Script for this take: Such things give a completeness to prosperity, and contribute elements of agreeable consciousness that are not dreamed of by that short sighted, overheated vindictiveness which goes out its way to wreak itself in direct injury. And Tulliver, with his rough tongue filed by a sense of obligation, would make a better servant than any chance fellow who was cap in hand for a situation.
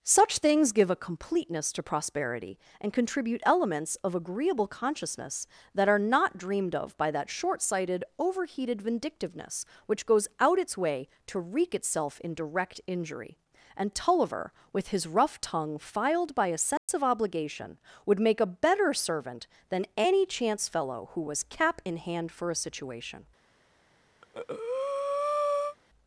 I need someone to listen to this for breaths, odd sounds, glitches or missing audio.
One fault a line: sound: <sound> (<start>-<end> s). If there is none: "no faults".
sound: dropout (16.8-16.9 s)
sound: breath (24.2-25.8 s)